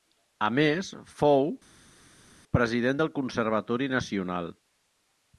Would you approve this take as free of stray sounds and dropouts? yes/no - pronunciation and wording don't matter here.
yes